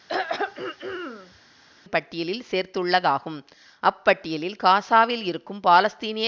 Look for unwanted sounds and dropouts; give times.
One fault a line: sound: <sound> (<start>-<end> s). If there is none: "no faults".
sound: throat clearing (0.1-1.4 s)